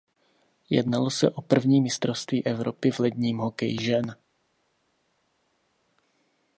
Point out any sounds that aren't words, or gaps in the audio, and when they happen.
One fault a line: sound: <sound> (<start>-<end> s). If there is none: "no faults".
no faults